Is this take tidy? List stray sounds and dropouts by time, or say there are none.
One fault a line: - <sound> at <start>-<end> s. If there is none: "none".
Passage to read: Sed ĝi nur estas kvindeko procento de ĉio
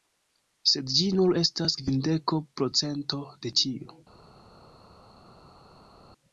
none